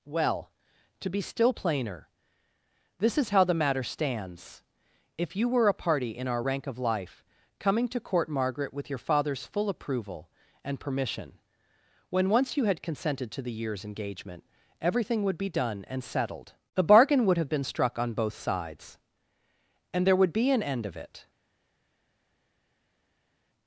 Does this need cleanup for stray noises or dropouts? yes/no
no